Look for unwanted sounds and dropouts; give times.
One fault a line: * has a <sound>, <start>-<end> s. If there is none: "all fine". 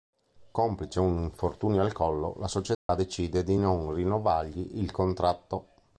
* has a dropout, 2.7-2.9 s